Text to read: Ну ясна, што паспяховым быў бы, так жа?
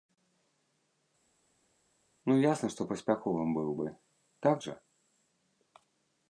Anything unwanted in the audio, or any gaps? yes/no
no